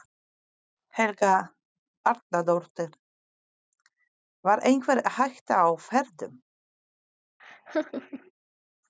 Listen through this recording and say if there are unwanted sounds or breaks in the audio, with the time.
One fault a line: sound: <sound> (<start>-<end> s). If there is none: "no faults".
sound: laugh (7.4-8.3 s)